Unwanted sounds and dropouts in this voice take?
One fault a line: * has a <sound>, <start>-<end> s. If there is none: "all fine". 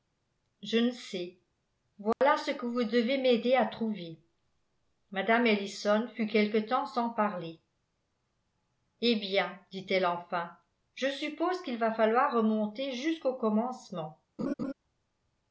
* has a dropout, 2.1-2.2 s
* has a laugh, 14.4-14.7 s